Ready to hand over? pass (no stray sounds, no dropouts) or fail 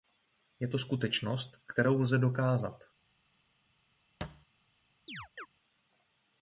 fail